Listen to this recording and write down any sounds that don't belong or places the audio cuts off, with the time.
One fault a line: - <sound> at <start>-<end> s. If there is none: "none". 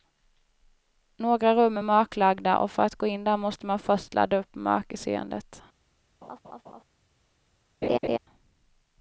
- laugh at 6.2-6.8 s
- laugh at 7.8-8.2 s